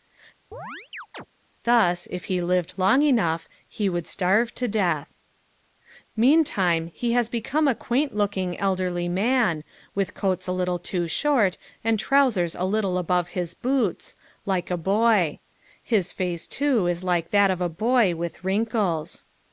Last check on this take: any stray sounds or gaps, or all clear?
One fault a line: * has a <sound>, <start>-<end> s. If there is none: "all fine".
* has a chirp, 0.5-1.3 s